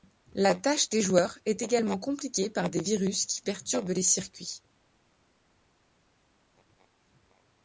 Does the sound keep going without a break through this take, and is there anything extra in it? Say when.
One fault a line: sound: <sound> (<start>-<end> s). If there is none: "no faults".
no faults